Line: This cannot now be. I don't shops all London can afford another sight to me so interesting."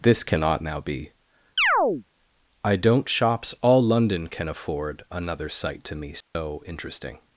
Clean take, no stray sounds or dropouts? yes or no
no